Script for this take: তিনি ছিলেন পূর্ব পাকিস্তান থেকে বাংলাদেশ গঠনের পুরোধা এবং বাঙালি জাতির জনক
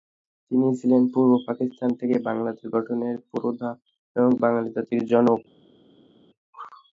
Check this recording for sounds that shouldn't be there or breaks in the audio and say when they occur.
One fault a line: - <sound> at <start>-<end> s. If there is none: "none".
none